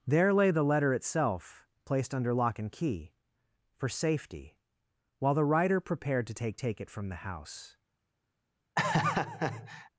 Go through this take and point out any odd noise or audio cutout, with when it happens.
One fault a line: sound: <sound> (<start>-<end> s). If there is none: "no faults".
sound: laugh (8.8-9.9 s)